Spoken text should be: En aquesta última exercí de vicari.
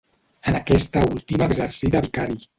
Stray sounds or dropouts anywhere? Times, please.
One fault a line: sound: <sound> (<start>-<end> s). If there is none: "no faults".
no faults